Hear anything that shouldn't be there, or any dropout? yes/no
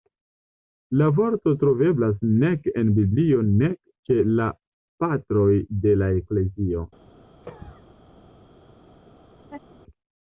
yes